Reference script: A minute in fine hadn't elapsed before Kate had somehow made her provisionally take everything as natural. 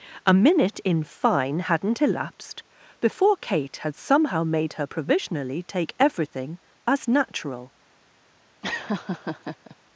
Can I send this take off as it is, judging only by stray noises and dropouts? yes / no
no